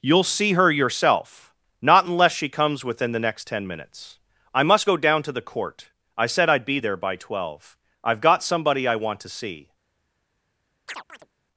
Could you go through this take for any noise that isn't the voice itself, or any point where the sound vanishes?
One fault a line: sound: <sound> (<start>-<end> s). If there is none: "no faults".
sound: chirp (10.9-11.3 s)